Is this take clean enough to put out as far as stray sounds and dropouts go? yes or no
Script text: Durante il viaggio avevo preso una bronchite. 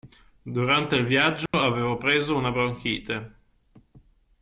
no